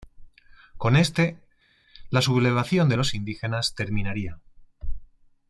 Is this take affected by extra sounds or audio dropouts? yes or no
no